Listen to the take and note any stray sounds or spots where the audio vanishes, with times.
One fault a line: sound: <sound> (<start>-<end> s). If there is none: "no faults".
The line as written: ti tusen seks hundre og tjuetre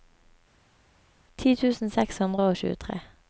no faults